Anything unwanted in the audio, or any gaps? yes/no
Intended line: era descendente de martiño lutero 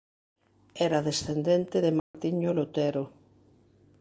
yes